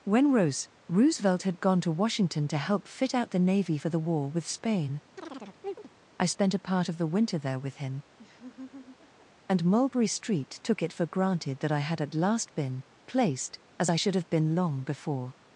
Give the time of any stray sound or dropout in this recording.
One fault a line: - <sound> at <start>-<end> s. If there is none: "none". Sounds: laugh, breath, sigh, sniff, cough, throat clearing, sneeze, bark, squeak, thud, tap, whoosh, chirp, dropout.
- chirp at 5.2-5.9 s
- laugh at 8.2-9.3 s